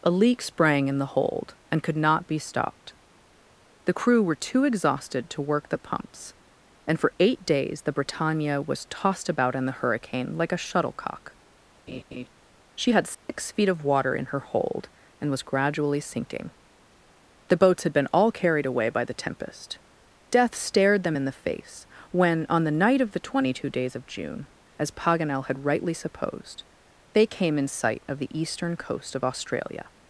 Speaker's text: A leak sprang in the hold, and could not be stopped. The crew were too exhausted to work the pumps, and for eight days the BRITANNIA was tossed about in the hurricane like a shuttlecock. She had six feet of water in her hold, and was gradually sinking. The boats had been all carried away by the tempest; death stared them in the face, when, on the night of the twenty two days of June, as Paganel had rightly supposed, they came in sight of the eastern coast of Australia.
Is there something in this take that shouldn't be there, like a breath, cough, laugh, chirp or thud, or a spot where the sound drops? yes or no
yes